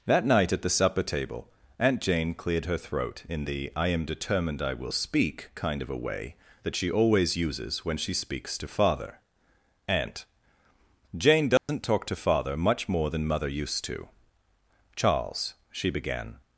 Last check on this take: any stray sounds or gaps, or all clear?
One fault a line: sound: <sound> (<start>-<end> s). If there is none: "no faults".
sound: dropout (11.6-11.7 s)